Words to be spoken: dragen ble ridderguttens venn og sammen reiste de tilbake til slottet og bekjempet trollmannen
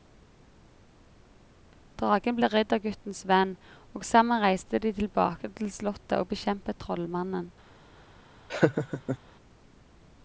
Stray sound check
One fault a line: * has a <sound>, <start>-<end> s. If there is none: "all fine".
* has a laugh, 8.5-9.2 s